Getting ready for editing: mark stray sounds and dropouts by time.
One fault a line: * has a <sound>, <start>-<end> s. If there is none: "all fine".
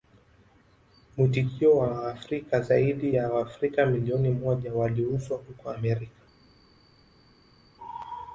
all fine